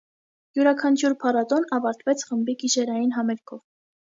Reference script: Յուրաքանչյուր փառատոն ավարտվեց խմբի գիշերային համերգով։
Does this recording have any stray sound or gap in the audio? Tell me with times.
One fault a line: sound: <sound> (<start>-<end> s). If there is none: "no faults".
no faults